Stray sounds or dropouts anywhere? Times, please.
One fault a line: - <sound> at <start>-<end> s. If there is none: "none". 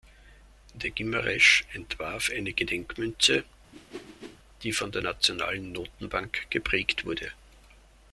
- whoosh at 3.7-4.4 s